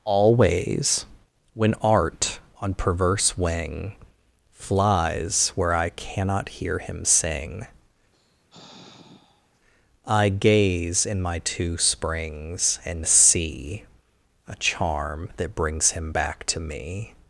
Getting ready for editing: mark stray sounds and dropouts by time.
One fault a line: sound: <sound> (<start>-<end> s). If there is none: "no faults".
sound: sigh (8.1-9.6 s)